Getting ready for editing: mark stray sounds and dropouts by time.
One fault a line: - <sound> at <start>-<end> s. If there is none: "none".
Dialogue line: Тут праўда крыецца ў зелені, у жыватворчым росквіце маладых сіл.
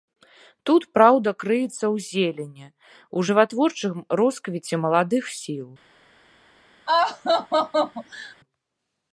- laugh at 6.9-8.4 s